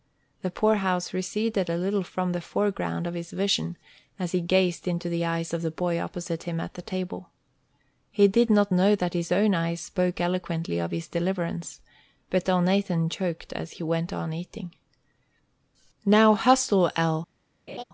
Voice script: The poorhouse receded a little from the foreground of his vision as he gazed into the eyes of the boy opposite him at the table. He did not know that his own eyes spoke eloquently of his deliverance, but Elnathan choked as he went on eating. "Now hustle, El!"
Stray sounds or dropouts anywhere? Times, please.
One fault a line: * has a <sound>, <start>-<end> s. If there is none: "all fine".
* has a laugh, 17.7-17.8 s